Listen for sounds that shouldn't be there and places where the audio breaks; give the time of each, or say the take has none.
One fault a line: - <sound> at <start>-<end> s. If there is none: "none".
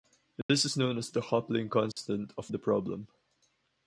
- dropout at 0.4-0.5 s
- dropout at 1.9-2.0 s